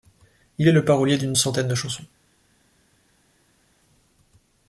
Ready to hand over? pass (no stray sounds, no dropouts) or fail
pass